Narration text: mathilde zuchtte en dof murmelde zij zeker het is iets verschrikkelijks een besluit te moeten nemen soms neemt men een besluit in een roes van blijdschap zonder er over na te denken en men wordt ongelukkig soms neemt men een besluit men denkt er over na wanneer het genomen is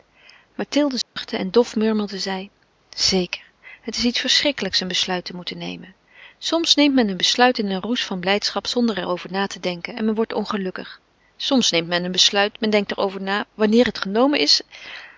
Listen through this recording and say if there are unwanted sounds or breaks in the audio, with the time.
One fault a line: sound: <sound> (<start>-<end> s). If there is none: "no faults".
sound: dropout (1.0-1.2 s)